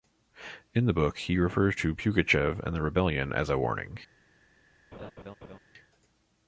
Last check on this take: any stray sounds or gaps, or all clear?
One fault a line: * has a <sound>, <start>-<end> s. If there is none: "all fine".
* has a laugh, 4.9-5.6 s